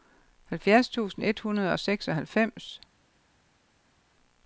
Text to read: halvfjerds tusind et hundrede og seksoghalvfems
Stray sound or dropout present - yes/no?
no